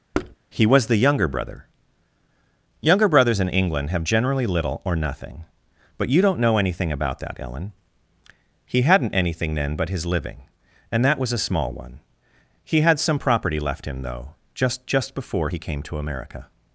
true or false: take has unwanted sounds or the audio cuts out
true